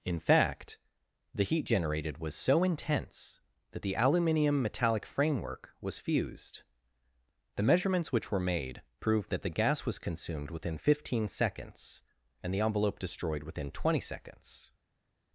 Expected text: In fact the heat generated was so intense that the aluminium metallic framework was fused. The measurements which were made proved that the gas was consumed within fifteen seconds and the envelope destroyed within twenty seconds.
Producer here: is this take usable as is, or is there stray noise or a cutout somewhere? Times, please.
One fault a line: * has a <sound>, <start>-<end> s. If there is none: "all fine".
all fine